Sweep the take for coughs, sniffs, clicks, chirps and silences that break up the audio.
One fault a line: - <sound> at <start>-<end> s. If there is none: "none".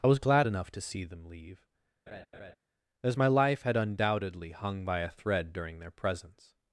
- laugh at 2.1-2.6 s